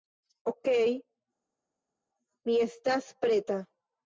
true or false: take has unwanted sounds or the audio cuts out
false